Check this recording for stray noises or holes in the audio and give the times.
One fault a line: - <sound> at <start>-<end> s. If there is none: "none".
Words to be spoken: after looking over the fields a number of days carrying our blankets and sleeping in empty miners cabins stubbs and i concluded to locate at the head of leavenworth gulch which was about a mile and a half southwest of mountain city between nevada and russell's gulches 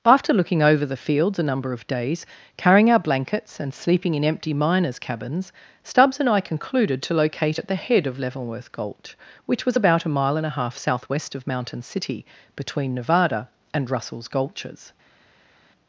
none